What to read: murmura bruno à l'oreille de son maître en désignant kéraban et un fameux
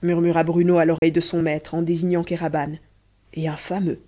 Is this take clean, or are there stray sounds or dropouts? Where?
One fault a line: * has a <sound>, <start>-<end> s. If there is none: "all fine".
* has a dropout, 1.0-1.0 s